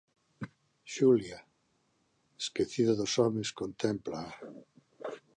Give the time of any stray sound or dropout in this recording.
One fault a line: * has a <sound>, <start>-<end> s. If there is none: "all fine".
all fine